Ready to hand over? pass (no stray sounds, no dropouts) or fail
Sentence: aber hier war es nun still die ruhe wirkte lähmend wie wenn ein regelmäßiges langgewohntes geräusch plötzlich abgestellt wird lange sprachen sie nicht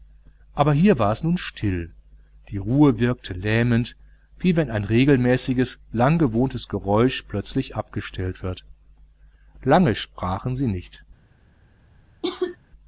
fail